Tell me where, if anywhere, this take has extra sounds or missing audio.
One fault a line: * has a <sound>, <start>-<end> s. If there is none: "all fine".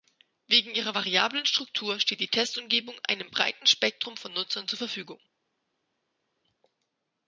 all fine